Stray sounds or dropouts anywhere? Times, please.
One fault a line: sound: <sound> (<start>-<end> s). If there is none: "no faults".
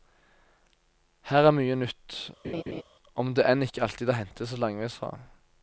sound: laugh (2.4-2.8 s)